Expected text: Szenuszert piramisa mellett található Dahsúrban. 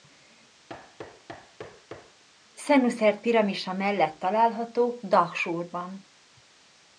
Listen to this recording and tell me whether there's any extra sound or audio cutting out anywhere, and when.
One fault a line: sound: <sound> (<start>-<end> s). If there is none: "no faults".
sound: thud (0.7-2.2 s)